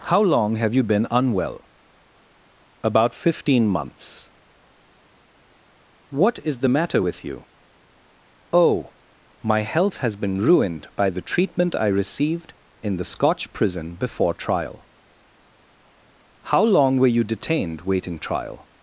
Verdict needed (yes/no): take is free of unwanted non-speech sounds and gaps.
yes